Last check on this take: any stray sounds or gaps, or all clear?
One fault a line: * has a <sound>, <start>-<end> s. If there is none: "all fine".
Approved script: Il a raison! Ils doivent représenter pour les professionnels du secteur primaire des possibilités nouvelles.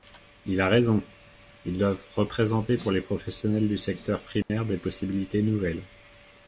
* has a dropout, 4.4-4.5 s